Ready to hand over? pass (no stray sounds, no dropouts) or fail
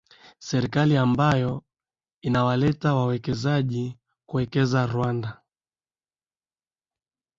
pass